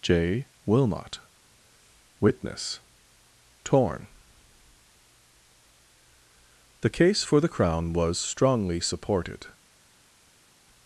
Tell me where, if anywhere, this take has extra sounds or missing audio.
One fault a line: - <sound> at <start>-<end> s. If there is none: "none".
none